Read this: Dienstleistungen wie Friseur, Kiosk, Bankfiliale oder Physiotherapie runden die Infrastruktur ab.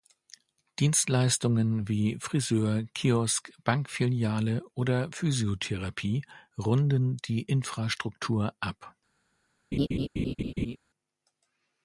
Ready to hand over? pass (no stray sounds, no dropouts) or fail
fail